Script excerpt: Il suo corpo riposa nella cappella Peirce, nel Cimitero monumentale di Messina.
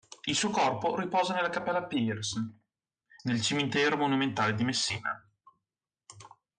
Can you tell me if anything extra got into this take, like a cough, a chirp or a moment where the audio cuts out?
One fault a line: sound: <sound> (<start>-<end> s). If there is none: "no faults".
no faults